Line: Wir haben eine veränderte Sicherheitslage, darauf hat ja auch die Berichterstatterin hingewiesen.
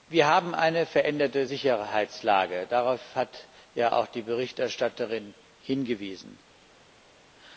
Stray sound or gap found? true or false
false